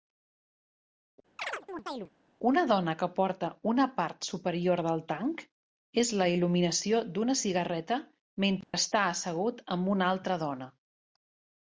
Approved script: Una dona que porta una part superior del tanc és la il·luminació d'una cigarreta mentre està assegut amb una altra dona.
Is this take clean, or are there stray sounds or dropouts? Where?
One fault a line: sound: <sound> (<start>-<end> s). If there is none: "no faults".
sound: chirp (1.4-2.1 s)
sound: dropout (8.6-8.7 s)